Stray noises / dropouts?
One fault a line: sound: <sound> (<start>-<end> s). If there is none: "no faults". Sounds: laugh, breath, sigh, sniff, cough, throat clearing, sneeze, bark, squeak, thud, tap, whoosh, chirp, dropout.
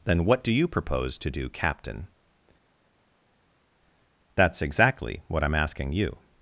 no faults